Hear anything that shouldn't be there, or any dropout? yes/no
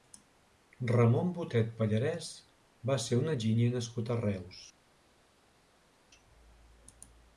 no